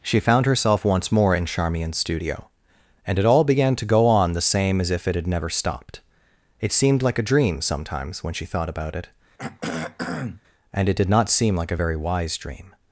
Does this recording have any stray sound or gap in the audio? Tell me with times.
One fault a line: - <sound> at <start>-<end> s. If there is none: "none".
- throat clearing at 9.4-10.4 s